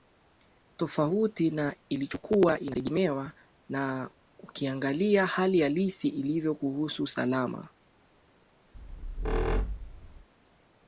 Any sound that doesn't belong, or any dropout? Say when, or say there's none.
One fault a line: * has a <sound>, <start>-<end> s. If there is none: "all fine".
* has a squeak, 8.7-10.3 s